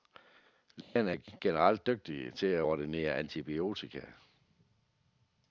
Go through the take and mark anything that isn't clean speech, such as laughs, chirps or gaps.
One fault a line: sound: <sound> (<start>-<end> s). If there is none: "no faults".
sound: dropout (0.8-1.0 s)